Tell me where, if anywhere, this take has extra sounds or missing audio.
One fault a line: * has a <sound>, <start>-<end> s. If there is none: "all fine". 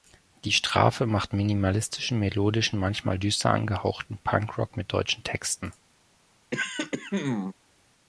* has a throat clearing, 6.5-7.5 s